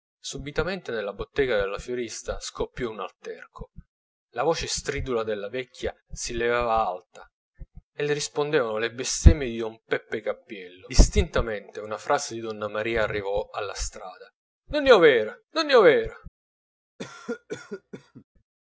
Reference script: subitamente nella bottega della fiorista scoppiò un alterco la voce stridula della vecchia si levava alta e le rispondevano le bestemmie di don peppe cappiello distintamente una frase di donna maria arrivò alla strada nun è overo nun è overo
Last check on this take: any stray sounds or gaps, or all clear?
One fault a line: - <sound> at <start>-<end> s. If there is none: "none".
- cough at 17.0-18.2 s